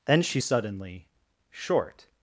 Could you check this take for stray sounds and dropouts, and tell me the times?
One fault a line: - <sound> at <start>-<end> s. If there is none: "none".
none